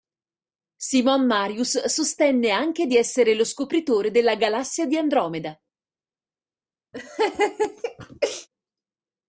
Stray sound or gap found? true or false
true